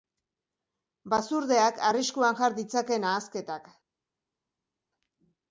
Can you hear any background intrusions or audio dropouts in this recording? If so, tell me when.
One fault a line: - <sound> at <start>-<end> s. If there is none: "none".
none